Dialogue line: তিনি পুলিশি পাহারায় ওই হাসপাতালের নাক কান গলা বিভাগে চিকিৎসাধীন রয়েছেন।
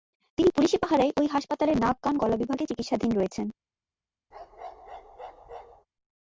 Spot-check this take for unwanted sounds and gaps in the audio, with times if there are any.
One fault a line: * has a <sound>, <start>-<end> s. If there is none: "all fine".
* has a bark, 4.3-5.9 s